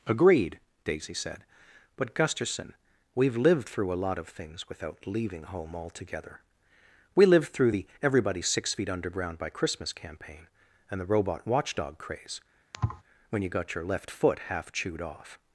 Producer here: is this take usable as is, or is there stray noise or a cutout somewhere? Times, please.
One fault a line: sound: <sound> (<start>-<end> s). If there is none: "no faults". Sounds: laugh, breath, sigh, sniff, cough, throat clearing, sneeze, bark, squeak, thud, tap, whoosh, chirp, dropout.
sound: thud (12.7-13.0 s)